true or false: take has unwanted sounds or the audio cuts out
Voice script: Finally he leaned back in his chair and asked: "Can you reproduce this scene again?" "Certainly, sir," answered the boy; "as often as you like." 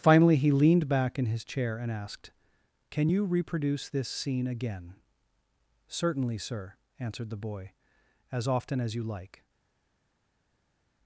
false